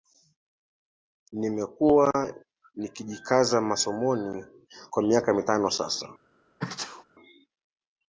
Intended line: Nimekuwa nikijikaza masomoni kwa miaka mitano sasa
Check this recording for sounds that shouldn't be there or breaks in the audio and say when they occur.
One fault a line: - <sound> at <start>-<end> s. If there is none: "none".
- sneeze at 6.6-7.0 s